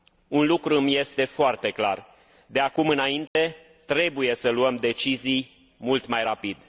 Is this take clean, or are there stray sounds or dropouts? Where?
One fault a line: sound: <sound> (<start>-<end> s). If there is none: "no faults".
sound: dropout (3.3-3.4 s)